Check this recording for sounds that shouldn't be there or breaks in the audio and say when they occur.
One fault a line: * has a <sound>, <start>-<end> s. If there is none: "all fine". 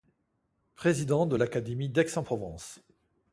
all fine